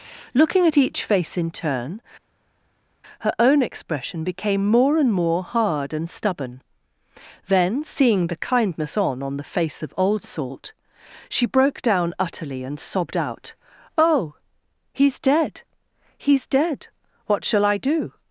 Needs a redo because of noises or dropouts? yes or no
no